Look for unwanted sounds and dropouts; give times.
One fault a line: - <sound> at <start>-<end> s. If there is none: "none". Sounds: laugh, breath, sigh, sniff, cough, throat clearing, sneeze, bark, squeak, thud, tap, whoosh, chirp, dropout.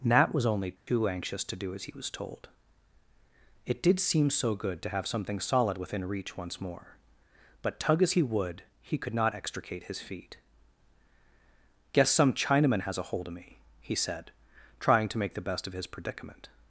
- dropout at 0.8-0.9 s